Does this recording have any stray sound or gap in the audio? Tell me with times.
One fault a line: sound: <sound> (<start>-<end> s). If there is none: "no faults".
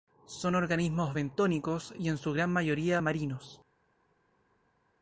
no faults